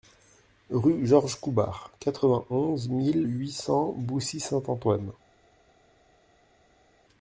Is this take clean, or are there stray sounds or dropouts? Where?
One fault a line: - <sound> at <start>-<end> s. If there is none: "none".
none